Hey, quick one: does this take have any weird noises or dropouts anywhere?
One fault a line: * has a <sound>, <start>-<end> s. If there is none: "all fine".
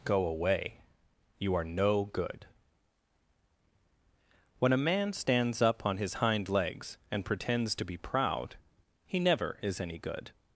all fine